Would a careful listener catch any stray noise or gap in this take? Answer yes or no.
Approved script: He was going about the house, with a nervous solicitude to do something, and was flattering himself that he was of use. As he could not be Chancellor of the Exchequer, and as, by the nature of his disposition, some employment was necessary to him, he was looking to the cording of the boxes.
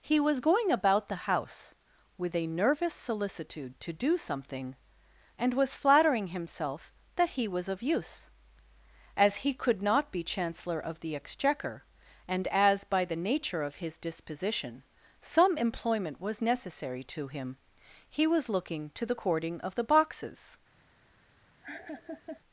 yes